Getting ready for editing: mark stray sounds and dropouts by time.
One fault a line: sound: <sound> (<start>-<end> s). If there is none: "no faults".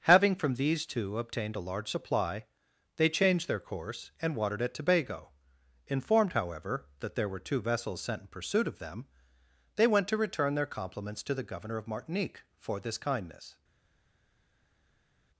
no faults